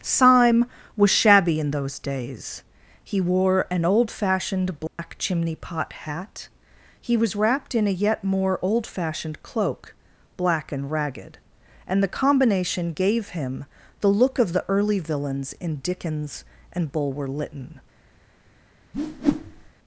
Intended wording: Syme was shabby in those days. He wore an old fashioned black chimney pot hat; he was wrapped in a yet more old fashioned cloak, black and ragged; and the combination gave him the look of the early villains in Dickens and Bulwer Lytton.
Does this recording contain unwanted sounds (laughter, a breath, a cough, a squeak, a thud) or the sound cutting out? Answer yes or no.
yes